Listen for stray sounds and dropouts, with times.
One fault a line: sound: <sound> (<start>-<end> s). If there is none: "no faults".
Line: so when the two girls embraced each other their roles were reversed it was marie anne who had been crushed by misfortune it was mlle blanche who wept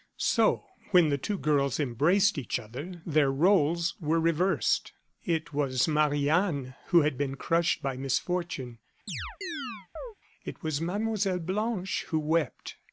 sound: chirp (9.1-10.1 s)